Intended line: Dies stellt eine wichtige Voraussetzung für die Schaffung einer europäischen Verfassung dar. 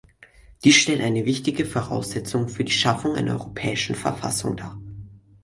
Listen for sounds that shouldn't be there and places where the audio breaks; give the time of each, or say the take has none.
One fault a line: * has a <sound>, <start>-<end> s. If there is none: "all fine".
all fine